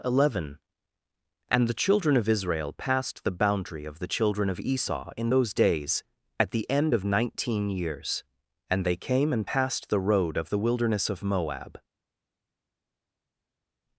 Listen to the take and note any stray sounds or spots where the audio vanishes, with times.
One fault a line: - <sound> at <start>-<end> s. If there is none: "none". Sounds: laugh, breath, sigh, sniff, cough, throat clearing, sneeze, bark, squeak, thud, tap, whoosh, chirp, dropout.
none